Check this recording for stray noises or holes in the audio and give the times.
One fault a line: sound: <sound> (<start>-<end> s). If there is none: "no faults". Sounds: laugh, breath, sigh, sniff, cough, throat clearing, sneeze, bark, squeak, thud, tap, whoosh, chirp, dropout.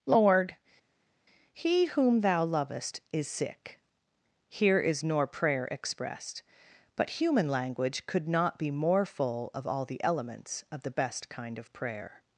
no faults